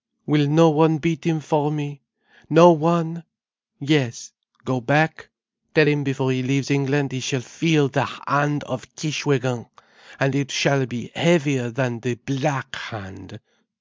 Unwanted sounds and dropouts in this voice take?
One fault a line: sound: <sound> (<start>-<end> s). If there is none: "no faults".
no faults